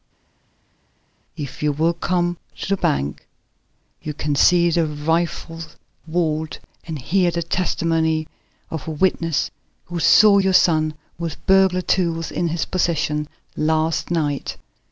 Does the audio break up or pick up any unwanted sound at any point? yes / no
no